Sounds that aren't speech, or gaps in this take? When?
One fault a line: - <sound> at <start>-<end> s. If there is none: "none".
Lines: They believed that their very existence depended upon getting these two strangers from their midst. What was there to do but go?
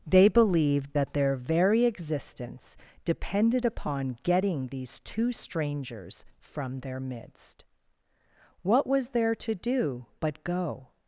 none